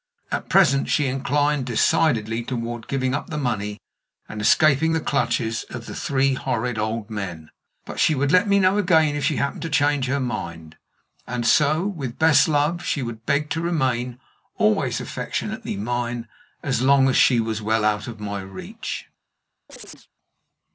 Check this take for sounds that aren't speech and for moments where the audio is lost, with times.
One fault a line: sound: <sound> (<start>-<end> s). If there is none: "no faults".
sound: chirp (19.7-20.1 s)